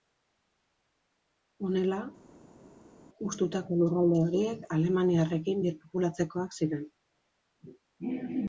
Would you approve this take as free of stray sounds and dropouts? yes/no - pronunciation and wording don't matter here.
yes